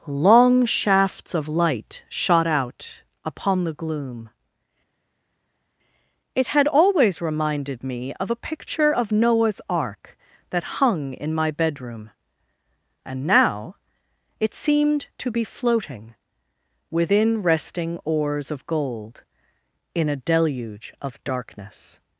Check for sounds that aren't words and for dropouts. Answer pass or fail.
pass